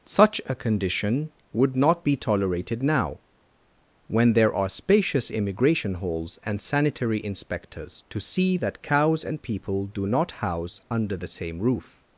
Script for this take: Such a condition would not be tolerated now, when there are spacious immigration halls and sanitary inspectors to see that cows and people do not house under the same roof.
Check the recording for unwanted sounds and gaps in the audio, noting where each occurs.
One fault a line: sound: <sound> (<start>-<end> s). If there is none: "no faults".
no faults